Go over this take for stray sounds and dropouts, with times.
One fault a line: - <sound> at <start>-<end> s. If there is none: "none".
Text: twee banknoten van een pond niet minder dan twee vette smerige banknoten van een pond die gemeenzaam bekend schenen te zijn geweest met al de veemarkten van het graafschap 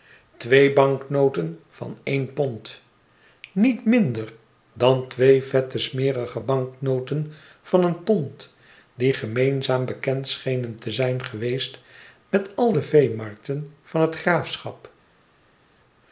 none